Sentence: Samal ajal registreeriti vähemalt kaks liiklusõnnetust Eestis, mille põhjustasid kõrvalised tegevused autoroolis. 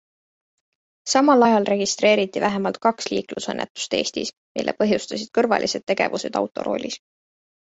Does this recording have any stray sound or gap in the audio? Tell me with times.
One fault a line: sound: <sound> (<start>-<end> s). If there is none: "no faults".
no faults